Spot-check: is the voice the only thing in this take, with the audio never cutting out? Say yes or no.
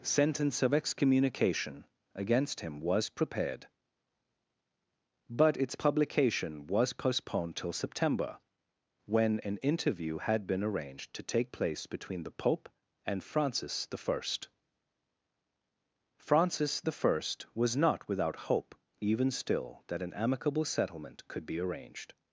yes